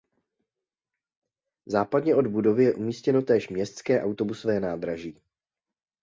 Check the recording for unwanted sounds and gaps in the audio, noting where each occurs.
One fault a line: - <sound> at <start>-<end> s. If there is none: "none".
none